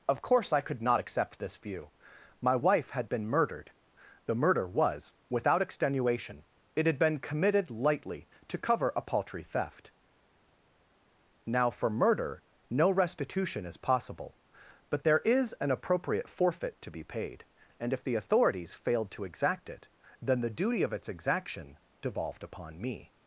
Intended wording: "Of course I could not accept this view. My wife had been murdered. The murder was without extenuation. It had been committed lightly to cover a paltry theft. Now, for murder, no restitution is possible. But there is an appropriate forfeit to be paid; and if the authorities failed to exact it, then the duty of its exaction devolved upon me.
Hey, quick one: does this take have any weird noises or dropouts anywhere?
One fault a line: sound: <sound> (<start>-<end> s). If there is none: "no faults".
no faults